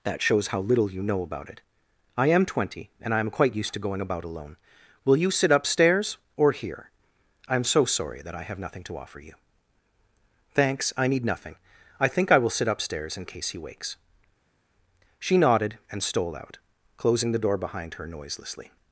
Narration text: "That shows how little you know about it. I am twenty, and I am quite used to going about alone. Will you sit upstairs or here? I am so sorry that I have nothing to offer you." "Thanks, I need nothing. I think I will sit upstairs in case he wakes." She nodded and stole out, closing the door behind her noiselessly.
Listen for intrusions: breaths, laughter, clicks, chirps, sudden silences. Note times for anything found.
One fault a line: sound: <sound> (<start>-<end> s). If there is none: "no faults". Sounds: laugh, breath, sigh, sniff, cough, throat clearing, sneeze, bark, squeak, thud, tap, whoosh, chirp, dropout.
no faults